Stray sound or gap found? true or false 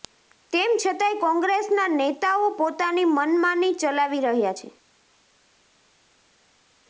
false